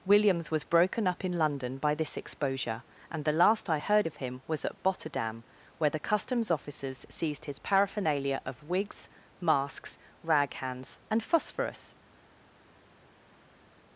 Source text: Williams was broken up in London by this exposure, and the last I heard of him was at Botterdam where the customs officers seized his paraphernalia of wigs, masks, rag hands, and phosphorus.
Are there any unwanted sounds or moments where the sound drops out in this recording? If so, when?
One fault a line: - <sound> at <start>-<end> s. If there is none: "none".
none